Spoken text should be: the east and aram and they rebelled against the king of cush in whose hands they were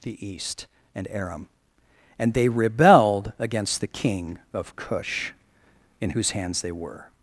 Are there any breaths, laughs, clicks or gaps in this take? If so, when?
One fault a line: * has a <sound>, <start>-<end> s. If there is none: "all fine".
all fine